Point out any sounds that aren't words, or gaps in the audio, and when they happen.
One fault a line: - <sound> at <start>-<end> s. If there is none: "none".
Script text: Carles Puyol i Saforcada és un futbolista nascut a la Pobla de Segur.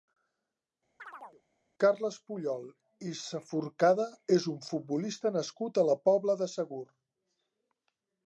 - chirp at 1.0-1.4 s